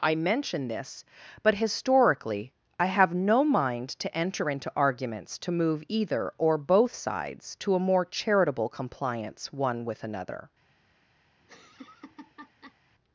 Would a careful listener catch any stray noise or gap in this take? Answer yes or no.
yes